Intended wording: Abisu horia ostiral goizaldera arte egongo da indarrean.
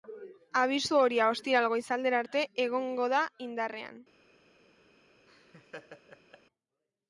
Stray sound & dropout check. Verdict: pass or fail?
fail